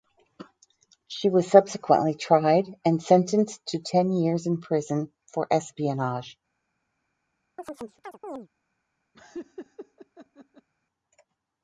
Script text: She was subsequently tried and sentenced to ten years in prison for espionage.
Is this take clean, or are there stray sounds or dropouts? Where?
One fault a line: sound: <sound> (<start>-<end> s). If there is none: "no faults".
sound: chirp (7.6-8.5 s)
sound: laugh (9.1-10.7 s)